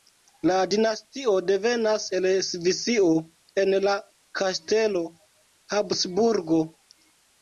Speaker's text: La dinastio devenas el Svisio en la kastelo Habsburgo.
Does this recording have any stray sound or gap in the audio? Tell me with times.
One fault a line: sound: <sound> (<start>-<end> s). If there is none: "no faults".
no faults